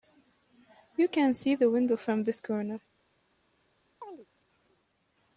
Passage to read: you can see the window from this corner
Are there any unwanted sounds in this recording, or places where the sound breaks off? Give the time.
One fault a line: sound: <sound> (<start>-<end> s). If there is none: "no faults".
sound: chirp (4.0-4.3 s)